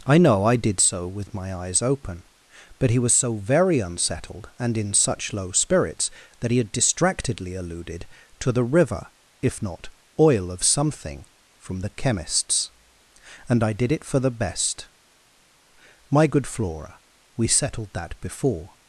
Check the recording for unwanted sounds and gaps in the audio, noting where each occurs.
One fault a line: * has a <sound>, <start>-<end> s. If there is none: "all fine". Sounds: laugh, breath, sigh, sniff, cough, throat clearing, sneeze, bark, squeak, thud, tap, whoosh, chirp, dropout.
all fine